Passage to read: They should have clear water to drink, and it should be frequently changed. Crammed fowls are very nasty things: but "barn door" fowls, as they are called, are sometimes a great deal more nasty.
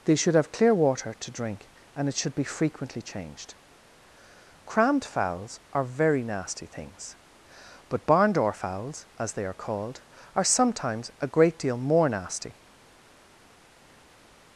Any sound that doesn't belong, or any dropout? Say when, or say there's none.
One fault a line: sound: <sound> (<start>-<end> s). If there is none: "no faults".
no faults